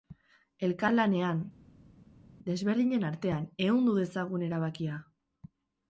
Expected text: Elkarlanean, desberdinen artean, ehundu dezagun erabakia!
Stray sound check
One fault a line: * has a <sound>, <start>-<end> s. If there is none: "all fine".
all fine